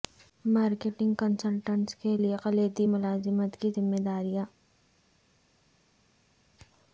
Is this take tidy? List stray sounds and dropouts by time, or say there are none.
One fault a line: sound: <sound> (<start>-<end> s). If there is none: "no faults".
no faults